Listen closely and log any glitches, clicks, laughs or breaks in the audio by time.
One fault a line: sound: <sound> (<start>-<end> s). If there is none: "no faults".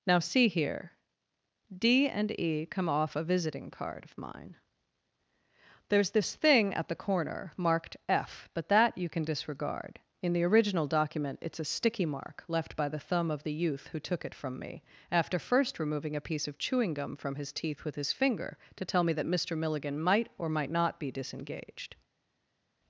no faults